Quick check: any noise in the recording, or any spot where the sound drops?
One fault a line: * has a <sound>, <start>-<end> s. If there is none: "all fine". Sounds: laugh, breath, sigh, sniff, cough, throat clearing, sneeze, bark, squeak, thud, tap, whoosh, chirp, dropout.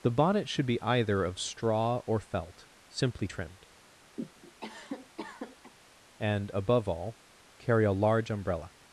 * has a cough, 4.2-5.7 s